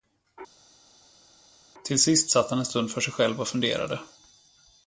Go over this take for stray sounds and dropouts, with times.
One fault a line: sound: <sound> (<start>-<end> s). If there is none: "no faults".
no faults